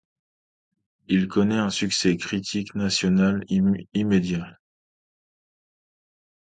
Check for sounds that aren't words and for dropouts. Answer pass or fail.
pass